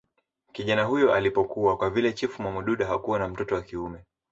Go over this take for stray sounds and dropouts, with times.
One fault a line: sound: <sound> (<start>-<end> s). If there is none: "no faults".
no faults